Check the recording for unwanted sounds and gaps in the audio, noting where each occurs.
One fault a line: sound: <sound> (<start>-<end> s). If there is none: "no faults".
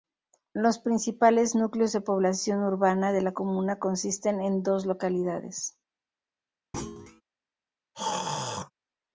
sound: thud (6.7-7.2 s)
sound: throat clearing (7.9-8.7 s)